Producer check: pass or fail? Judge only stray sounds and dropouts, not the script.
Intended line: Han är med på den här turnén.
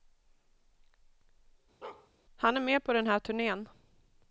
fail